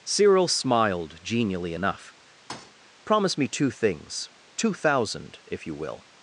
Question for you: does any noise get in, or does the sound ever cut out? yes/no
yes